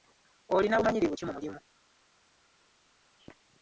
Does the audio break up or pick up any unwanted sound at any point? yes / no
no